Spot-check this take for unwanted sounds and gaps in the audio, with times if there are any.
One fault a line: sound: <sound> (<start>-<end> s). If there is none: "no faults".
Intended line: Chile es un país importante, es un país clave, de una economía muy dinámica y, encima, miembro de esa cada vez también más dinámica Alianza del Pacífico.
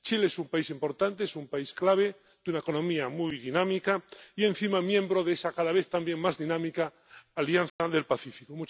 sound: dropout (7.7-7.8 s)